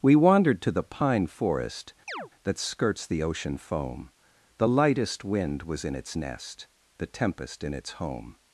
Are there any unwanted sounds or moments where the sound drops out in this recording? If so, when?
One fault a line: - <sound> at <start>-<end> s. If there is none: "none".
- chirp at 2.1-2.3 s